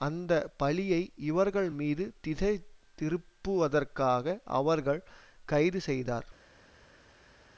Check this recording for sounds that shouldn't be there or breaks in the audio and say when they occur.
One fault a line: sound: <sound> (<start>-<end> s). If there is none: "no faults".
no faults